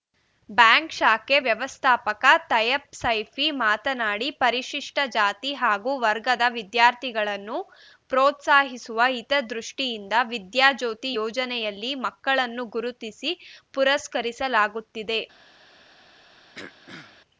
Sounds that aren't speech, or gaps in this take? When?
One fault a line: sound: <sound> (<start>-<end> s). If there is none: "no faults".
sound: throat clearing (16.5-17.2 s)